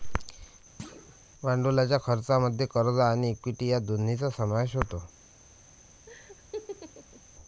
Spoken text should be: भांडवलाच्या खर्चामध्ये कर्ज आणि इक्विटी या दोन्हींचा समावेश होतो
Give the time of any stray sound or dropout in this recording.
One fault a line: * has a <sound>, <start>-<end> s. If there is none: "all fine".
* has a thud, 0.8-1.2 s
* has a laugh, 6.1-7.2 s